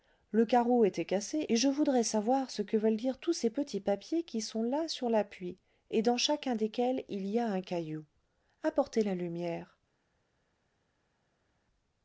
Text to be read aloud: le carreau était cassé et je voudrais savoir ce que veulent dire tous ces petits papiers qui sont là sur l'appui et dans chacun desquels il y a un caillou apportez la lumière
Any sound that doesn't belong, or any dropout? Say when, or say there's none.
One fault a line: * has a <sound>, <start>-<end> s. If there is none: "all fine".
all fine